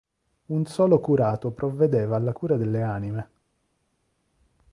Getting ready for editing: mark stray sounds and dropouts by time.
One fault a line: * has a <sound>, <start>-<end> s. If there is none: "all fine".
all fine